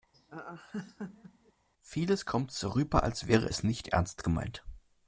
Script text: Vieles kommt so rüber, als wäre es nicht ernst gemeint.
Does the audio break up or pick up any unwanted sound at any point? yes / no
yes